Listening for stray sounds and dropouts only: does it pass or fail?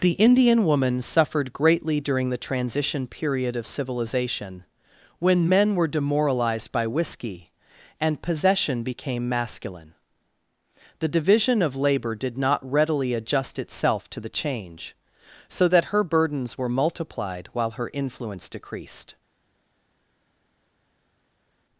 pass